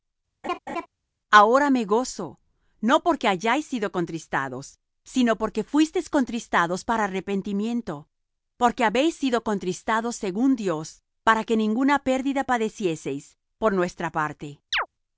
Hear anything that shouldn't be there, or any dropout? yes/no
yes